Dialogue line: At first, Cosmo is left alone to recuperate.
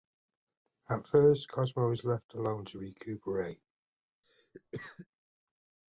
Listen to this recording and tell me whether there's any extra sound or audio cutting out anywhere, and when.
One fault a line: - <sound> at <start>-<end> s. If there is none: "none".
- cough at 4.2-5.1 s